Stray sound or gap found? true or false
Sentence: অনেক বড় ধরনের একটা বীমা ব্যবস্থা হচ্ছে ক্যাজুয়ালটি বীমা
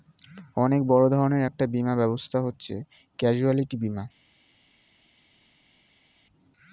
false